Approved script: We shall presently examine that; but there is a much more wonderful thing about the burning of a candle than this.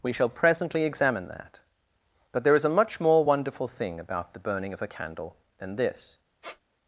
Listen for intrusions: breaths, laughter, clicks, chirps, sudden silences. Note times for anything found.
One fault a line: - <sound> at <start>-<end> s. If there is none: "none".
- squeak at 6.4-6.6 s